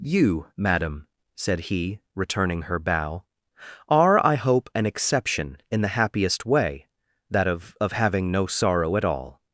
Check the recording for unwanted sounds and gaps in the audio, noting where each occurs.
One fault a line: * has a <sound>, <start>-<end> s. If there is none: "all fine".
all fine